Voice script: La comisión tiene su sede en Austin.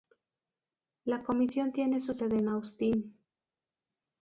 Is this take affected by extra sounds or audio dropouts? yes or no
no